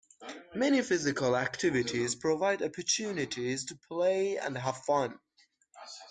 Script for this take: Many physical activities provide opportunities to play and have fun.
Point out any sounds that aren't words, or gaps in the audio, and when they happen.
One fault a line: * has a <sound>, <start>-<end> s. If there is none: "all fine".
all fine